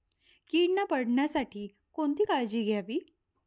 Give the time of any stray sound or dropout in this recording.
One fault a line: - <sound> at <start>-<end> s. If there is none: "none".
none